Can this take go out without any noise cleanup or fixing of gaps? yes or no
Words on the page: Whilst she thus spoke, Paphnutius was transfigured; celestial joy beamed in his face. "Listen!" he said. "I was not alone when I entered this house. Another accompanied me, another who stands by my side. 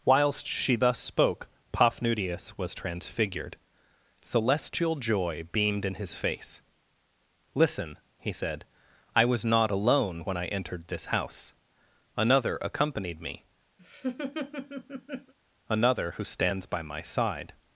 no